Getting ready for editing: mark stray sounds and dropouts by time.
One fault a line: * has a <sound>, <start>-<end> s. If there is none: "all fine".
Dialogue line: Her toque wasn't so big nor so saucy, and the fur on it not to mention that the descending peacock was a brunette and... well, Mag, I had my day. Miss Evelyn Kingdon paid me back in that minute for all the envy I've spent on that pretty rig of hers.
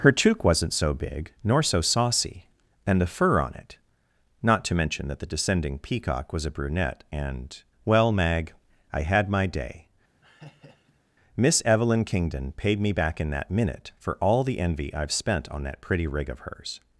* has a laugh, 10.2-11.0 s